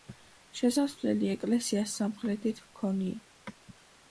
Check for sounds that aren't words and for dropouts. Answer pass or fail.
pass